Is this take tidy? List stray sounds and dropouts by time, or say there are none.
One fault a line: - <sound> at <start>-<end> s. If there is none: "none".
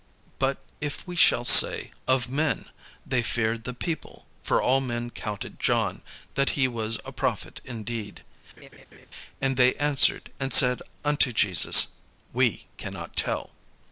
- laugh at 8.6-9.1 s